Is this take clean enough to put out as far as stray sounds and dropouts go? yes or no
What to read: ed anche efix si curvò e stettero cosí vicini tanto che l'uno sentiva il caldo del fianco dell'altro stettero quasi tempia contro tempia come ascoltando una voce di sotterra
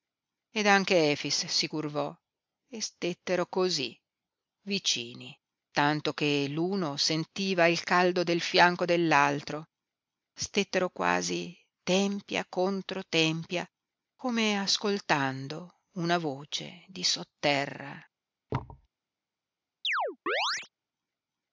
no